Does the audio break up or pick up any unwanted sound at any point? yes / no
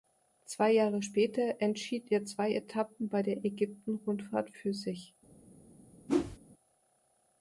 yes